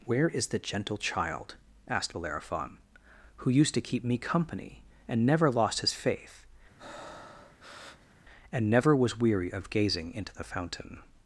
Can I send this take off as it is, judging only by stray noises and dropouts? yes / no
no